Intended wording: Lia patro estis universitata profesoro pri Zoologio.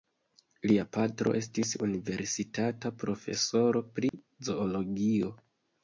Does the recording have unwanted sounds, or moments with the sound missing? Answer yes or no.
yes